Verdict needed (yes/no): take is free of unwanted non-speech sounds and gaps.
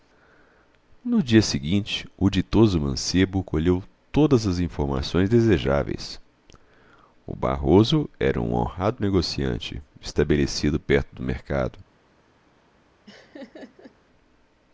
no